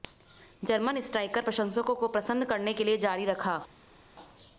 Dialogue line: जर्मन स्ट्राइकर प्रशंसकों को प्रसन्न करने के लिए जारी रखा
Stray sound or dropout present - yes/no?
no